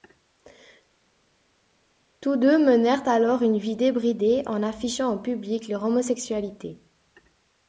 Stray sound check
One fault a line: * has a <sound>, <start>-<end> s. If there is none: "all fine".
all fine